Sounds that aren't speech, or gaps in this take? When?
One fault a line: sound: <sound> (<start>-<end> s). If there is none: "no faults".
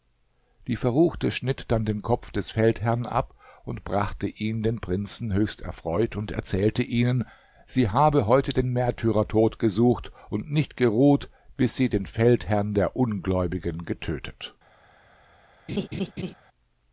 sound: laugh (15.7-16.3 s)